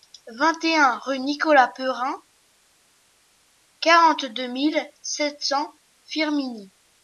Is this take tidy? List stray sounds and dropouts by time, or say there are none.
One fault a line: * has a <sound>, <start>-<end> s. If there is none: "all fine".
all fine